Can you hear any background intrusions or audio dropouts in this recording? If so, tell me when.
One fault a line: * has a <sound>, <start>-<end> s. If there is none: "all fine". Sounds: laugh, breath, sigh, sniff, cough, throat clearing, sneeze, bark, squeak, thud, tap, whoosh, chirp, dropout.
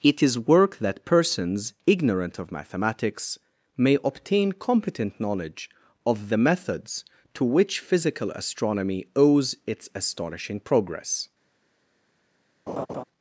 * has a laugh, 12.7-13.0 s